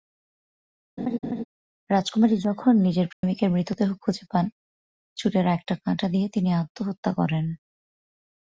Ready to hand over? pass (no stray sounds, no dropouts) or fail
fail